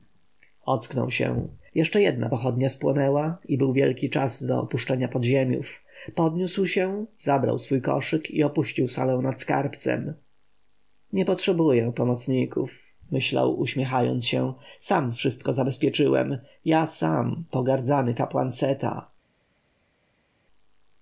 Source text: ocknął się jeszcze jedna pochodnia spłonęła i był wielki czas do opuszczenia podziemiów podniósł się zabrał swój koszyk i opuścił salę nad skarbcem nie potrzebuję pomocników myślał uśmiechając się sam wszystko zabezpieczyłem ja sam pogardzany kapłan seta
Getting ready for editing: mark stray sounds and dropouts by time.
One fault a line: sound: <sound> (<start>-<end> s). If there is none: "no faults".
no faults